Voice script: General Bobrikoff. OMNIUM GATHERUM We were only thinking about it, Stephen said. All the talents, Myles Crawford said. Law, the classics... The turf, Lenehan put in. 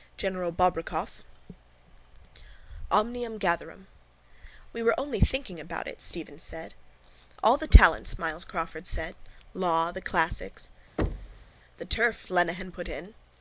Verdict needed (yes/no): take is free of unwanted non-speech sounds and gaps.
no